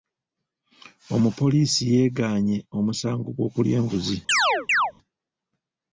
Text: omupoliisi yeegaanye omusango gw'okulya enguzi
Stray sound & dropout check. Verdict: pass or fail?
fail